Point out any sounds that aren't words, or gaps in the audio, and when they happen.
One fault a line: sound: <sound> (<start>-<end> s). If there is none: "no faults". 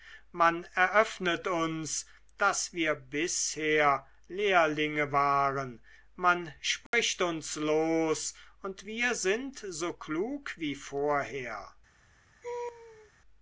sound: dropout (6.9-6.9 s)
sound: laugh (12.4-13.1 s)